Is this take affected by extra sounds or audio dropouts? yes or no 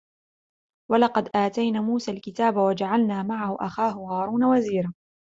no